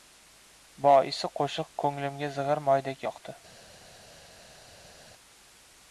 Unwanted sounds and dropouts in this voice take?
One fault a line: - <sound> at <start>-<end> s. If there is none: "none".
none